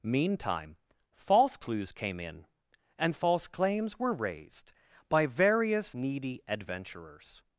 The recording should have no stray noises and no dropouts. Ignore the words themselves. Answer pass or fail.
pass